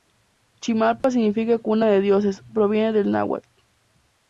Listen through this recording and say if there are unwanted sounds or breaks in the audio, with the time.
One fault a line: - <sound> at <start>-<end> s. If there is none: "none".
- dropout at 1.0-1.0 s